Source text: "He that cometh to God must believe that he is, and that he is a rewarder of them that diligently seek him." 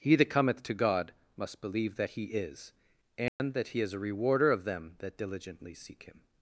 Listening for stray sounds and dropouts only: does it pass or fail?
fail